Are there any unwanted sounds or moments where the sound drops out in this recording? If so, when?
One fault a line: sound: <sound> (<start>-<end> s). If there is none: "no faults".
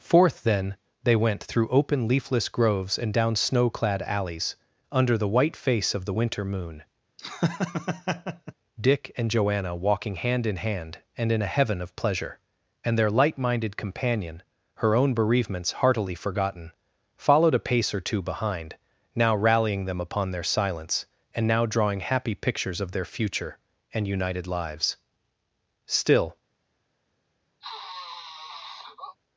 sound: laugh (7.2-8.5 s)
sound: sniff (27.6-29.2 s)